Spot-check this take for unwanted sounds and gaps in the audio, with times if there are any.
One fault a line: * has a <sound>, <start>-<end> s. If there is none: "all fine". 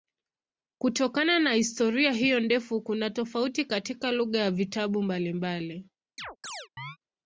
* has a chirp, 6.2-7.0 s